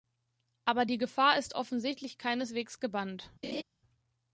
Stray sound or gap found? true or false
true